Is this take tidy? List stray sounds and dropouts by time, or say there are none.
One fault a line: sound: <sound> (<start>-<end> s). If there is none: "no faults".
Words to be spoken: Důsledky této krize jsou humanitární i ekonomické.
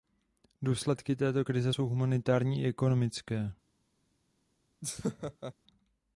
sound: laugh (4.8-5.5 s)